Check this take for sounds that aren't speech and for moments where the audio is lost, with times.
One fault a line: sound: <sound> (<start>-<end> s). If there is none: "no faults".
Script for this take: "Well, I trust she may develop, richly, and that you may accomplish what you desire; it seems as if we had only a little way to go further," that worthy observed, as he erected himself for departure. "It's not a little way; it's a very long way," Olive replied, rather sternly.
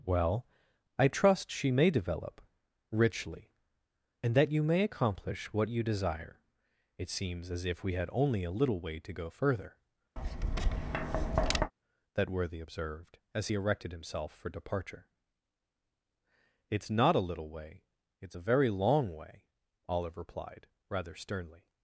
sound: tap (10.2-11.7 s)